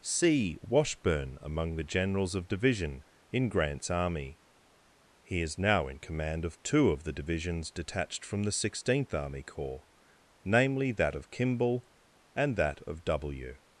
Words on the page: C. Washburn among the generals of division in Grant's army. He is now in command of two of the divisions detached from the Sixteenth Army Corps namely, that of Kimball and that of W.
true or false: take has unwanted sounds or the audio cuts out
false